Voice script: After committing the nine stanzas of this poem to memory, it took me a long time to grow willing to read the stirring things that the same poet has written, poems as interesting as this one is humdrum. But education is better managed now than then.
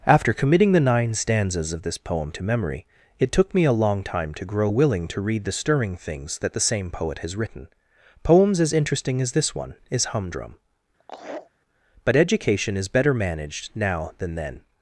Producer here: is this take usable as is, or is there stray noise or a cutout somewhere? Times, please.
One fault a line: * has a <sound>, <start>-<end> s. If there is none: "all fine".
* has a laugh, 11.0-11.5 s